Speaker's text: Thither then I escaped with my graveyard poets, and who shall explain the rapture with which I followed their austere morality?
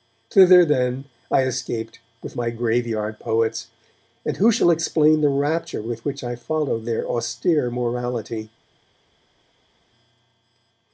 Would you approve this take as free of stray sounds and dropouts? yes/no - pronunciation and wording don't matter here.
yes